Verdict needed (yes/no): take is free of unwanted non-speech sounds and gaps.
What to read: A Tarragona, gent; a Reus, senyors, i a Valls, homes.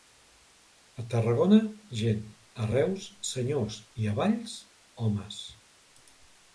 yes